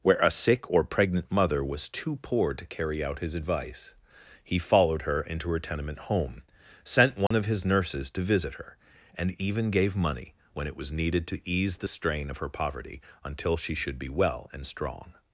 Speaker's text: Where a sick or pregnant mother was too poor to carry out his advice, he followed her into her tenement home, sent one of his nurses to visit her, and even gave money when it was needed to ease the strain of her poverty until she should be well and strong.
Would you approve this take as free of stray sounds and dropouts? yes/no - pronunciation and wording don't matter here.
no